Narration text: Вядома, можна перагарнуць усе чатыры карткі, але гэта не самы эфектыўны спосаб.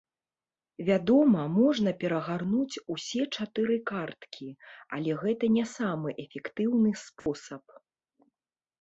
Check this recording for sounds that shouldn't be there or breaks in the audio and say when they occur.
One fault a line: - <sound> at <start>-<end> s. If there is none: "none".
- dropout at 7.2-7.3 s